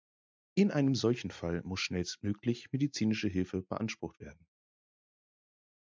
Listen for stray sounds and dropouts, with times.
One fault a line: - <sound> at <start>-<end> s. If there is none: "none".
none